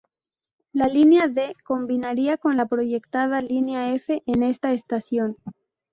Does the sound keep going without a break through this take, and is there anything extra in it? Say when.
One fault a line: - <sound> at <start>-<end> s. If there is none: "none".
none